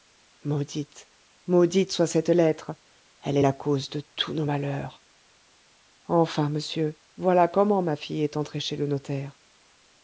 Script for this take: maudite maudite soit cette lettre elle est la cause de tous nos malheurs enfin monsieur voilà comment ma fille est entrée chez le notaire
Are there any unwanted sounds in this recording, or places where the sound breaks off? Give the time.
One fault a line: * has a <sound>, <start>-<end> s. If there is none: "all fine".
all fine